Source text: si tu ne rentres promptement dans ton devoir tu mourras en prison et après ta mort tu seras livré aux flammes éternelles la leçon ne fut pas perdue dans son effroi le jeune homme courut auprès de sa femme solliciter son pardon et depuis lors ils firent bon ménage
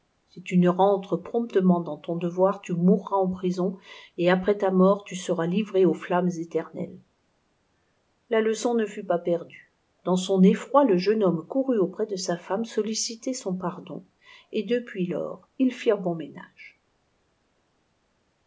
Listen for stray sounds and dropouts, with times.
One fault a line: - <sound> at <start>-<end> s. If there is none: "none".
none